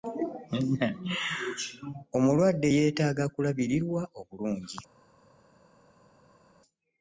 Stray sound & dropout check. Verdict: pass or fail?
pass